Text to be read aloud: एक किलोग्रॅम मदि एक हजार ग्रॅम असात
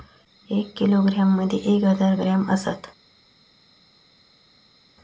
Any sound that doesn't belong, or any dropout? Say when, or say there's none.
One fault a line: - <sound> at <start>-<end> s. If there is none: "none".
none